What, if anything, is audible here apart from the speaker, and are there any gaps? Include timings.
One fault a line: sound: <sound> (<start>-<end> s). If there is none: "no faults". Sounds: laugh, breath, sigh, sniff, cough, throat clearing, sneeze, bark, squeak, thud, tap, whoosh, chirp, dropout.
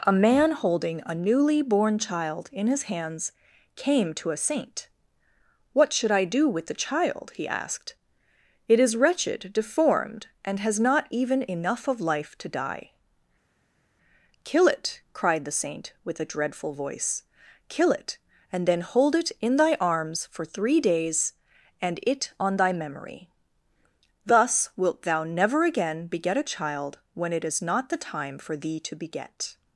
no faults